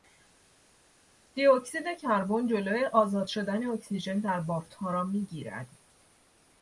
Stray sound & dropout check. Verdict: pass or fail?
pass